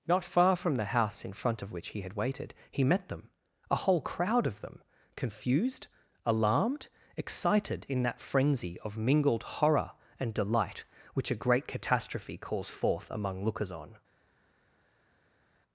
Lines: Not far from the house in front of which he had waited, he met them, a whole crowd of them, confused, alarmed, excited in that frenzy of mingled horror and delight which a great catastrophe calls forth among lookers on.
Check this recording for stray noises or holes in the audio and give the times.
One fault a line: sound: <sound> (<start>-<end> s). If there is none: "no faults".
no faults